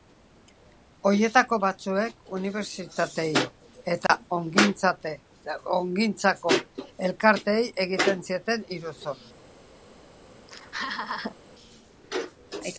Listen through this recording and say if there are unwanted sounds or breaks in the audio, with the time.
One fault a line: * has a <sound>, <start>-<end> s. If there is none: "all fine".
* has a dropout, 4.1-4.1 s
* has a laugh, 10.5-11.4 s